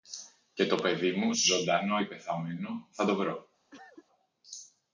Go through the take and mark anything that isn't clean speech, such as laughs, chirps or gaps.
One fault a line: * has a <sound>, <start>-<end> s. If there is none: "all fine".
* has a cough, 3.7-4.1 s